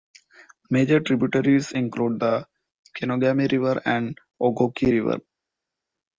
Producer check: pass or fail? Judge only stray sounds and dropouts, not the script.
pass